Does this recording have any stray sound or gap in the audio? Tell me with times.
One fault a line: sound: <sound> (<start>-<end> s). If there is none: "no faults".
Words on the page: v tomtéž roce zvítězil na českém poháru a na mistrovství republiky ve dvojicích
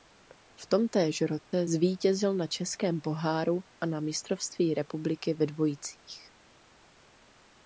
sound: dropout (1.4-1.5 s)